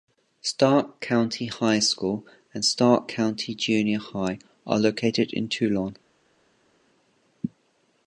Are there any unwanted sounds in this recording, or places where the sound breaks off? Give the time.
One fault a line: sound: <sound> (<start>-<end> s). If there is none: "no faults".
no faults